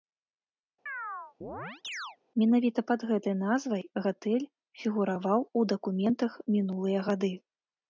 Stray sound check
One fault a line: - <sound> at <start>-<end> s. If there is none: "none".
- chirp at 0.9-2.2 s